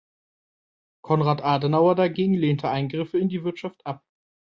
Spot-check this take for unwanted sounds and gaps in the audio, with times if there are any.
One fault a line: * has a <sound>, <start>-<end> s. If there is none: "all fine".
all fine